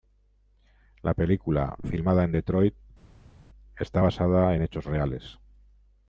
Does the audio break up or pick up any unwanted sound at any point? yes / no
no